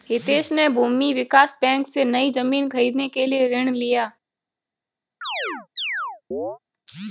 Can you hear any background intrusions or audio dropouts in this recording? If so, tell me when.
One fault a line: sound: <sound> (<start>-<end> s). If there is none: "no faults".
sound: chirp (5.2-6.6 s)